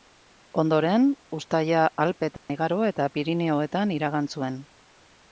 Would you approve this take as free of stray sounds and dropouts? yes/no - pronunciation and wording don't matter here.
no